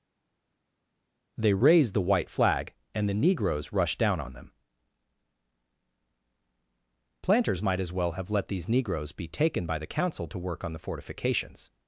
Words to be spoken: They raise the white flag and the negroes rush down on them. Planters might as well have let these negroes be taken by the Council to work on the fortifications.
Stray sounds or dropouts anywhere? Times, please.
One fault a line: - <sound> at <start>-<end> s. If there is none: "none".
none